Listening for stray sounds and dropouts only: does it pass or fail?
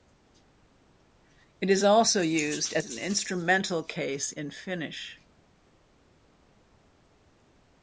pass